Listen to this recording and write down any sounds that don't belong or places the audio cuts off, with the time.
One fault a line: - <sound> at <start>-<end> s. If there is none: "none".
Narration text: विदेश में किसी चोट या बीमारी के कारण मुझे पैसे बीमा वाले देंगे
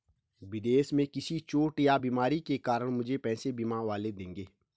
none